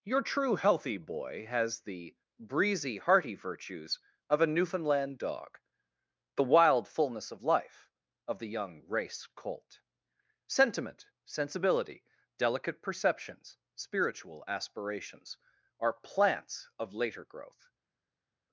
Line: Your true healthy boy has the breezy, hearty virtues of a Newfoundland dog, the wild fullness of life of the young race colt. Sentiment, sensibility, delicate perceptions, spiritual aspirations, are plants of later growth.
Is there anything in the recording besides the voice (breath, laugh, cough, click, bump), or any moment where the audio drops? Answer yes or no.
no